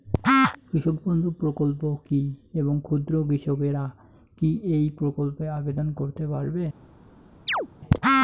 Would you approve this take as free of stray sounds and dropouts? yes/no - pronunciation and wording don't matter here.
no